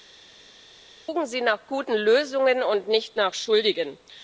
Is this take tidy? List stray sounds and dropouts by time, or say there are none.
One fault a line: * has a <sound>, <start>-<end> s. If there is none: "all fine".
all fine